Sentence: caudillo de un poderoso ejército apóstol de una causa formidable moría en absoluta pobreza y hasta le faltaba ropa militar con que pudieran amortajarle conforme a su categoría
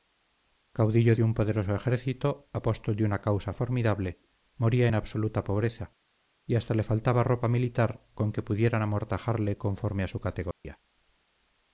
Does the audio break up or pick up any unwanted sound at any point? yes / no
yes